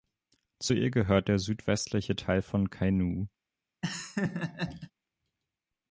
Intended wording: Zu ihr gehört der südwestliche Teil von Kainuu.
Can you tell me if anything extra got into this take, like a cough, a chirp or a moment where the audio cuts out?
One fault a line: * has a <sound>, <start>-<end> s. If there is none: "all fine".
* has a laugh, 3.8-4.9 s